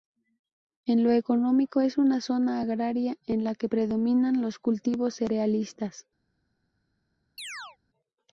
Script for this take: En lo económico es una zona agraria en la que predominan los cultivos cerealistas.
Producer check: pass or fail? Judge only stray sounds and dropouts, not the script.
fail